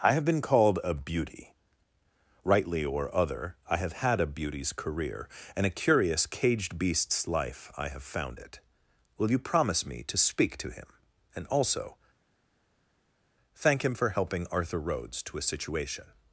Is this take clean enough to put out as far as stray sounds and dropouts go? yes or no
yes